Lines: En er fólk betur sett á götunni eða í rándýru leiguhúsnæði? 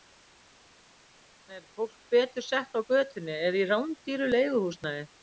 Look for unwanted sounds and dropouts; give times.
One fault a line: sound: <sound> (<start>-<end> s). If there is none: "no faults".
no faults